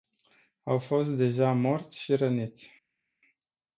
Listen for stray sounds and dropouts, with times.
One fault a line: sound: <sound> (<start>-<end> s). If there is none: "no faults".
no faults